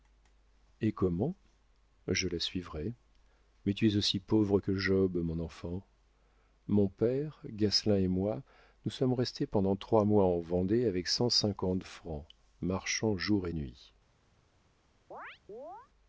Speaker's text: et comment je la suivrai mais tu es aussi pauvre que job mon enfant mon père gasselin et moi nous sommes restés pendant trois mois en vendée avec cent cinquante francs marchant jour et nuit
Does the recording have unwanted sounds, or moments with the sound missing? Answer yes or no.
yes